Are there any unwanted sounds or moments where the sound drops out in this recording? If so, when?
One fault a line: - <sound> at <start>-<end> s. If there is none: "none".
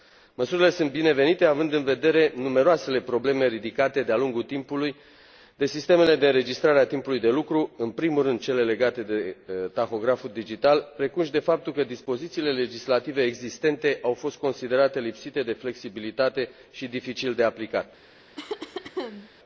- cough at 18.4-19.3 s